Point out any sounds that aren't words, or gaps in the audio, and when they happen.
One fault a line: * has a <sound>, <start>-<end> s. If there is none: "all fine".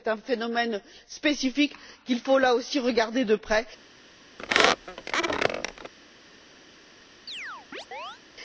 * has a squeak, 4.4-5.9 s
* has a chirp, 7.3-8.2 s